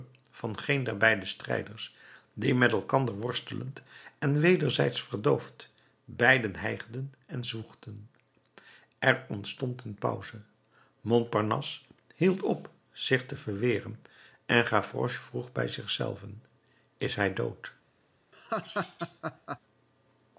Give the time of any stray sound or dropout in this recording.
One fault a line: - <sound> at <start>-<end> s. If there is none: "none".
- laugh at 18.3-19.6 s